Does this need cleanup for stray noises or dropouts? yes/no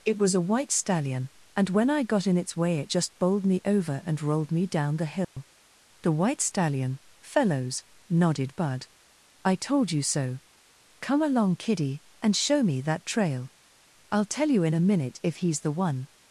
yes